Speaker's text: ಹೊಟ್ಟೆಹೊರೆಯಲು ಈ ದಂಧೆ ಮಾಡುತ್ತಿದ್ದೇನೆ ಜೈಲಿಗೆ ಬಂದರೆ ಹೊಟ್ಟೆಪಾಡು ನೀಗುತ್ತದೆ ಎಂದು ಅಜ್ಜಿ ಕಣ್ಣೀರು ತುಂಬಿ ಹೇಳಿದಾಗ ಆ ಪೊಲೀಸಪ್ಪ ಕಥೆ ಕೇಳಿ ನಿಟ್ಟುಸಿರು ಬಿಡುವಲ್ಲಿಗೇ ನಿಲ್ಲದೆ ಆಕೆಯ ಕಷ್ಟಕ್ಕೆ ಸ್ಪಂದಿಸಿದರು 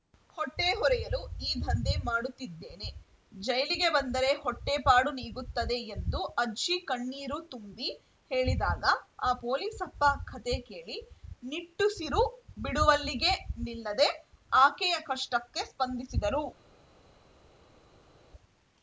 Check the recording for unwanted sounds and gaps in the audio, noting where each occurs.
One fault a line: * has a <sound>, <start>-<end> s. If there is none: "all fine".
all fine